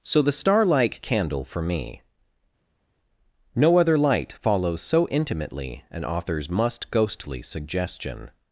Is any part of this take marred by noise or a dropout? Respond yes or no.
no